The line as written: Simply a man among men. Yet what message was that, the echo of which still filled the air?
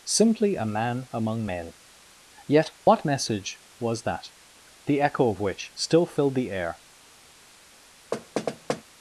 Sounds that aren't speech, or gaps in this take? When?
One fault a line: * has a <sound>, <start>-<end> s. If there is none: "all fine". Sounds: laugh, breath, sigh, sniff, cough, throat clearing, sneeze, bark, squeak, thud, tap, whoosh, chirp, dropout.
* has a dropout, 2.8-2.9 s
* has a thud, 8.1-8.8 s